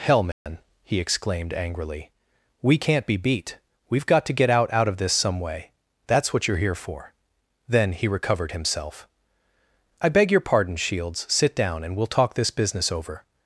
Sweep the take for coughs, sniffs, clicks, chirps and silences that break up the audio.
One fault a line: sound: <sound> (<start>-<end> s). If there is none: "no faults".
sound: dropout (0.3-0.5 s)